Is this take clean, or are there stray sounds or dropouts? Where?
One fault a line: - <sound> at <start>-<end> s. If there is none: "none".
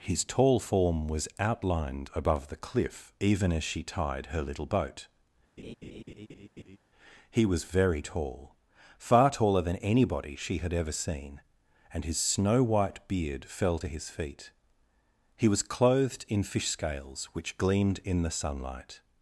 - laugh at 5.6-6.8 s